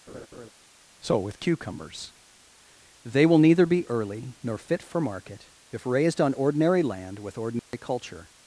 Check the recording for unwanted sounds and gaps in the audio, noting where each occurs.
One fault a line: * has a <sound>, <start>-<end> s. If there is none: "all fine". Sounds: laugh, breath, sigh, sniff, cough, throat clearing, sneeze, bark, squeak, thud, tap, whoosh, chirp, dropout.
* has a laugh, 0.1-0.5 s
* has a dropout, 7.6-7.7 s